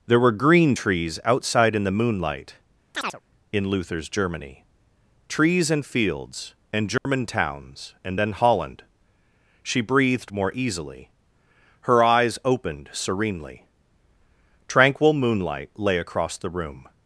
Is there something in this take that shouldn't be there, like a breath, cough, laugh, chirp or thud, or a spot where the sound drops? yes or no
yes